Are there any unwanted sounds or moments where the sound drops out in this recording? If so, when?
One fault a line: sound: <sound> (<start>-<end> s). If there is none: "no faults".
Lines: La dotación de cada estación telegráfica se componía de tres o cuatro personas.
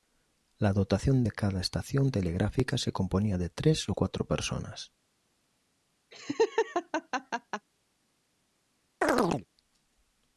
sound: laugh (6.1-7.7 s)
sound: chirp (9.0-9.5 s)